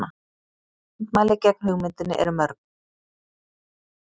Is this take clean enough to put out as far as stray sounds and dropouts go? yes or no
yes